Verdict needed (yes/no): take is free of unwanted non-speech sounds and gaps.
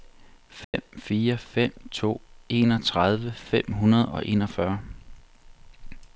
no